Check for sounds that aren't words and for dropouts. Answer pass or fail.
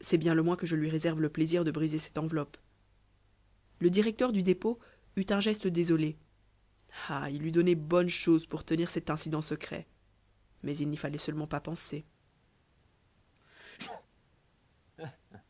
fail